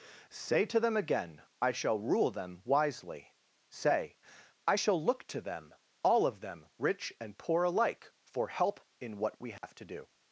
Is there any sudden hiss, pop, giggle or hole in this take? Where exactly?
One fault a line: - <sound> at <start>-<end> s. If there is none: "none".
- dropout at 9.6-9.6 s